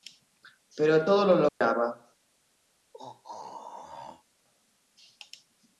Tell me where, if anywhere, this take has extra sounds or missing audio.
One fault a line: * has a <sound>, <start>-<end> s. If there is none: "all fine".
* has a dropout, 1.5-1.6 s
* has a throat clearing, 2.9-4.2 s